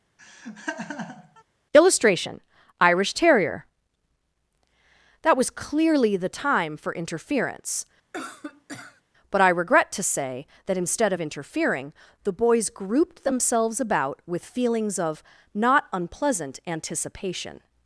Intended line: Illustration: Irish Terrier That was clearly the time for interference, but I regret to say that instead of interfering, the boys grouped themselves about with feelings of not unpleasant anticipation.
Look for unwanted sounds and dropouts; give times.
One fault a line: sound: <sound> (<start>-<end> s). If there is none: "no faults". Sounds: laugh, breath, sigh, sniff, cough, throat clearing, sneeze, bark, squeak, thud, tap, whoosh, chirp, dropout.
sound: laugh (0.2-1.4 s)
sound: cough (8.1-9.0 s)